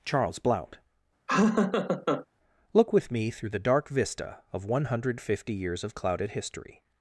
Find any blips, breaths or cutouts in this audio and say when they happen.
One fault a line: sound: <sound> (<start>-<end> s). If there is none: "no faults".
sound: laugh (1.3-2.3 s)